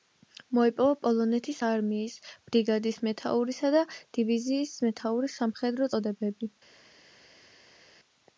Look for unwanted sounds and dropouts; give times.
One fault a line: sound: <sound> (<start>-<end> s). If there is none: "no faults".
no faults